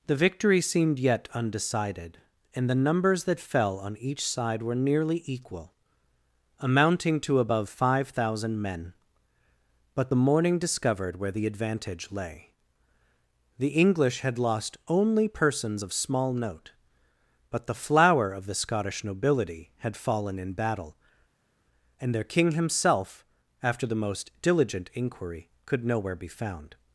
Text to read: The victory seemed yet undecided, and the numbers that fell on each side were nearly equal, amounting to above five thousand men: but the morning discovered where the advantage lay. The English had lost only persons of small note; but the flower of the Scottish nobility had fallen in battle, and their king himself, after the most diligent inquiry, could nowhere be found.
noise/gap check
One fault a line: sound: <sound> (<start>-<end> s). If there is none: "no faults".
no faults